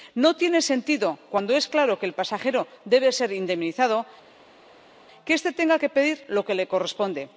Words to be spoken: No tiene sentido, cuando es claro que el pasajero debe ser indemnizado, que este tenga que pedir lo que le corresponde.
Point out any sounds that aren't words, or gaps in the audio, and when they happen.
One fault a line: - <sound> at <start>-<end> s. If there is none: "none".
none